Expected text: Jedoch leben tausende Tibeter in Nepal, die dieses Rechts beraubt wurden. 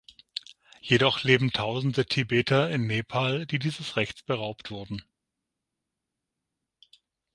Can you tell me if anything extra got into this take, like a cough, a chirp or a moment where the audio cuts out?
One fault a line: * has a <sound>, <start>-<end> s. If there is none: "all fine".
all fine